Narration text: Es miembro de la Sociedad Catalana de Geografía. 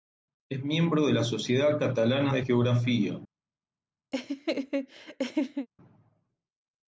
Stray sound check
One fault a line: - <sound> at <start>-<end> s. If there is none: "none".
- laugh at 4.1-5.7 s